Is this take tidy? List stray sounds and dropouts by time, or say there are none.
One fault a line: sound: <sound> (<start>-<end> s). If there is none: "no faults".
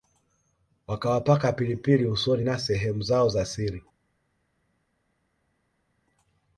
no faults